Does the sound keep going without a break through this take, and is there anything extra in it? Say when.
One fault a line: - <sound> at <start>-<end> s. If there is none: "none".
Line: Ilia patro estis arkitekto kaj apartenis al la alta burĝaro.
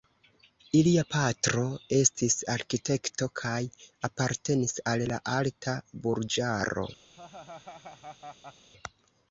- laugh at 7.1-8.7 s